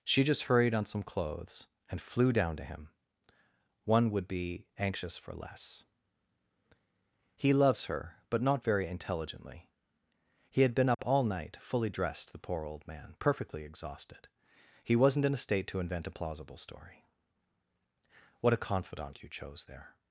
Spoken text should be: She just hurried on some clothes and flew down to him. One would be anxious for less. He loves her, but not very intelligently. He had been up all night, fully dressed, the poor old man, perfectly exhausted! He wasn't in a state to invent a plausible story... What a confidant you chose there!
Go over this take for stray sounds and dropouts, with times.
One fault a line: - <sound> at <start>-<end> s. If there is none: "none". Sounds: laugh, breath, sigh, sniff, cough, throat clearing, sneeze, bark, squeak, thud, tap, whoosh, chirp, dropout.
- dropout at 10.9-11.0 s